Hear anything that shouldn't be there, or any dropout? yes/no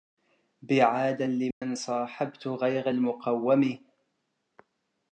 yes